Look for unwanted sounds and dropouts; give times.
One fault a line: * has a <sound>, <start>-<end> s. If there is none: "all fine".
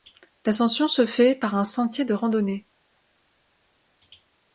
all fine